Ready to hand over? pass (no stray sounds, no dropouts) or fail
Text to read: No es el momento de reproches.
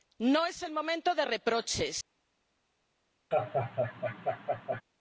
fail